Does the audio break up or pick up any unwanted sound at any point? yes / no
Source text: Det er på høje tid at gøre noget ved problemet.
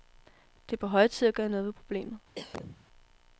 yes